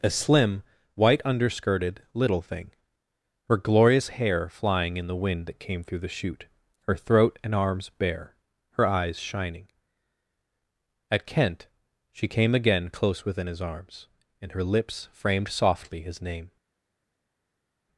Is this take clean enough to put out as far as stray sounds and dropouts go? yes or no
yes